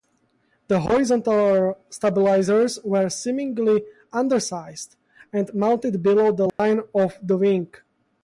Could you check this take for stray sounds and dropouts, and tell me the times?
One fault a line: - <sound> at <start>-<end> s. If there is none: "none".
- dropout at 6.5-6.6 s